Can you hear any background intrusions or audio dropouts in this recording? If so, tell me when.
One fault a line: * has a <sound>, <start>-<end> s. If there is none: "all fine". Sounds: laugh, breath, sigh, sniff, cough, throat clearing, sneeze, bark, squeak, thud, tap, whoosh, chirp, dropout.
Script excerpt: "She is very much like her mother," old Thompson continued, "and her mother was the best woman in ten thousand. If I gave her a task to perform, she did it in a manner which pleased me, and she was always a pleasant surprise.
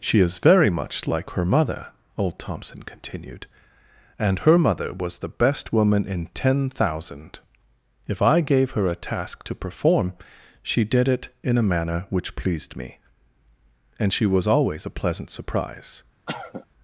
* has a cough, 16.3-16.7 s